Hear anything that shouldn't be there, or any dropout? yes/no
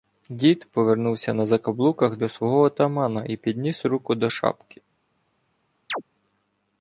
yes